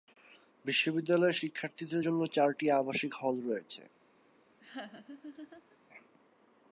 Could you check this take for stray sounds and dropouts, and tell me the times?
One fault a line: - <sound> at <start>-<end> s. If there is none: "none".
- laugh at 4.6-5.8 s